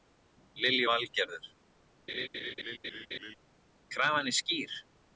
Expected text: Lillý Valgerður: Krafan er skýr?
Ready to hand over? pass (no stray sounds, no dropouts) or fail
fail